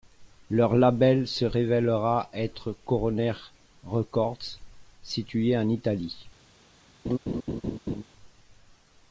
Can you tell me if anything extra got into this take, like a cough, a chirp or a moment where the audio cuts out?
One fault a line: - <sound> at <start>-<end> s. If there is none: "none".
- laugh at 7.0-8.0 s